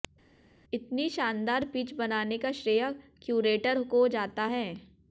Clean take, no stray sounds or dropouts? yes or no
yes